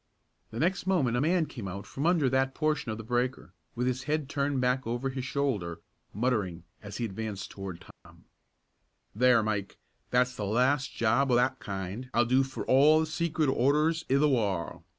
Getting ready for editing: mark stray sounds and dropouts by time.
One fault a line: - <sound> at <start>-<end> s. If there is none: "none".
- dropout at 7.9-8.1 s